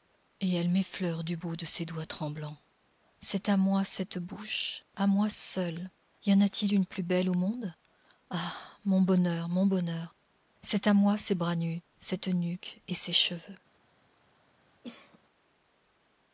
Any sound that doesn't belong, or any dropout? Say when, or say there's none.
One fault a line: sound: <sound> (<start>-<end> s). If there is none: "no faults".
sound: cough (14.8-15.2 s)